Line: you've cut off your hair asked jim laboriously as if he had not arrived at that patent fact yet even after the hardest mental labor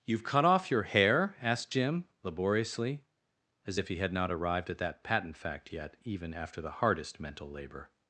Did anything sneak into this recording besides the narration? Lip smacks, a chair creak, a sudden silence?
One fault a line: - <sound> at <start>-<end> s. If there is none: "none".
none